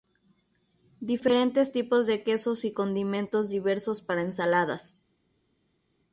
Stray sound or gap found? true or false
false